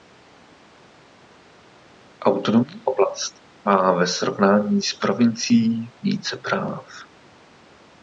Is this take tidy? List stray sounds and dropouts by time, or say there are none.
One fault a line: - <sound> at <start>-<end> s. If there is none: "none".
none